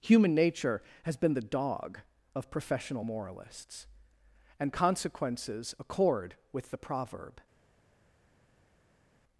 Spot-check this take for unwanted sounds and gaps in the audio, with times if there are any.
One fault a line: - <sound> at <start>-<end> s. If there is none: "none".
none